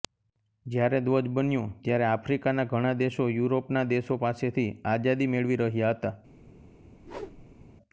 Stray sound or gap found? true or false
true